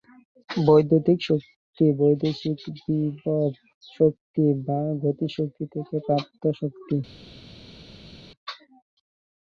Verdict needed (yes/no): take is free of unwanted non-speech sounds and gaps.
yes